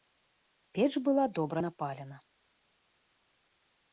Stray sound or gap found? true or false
false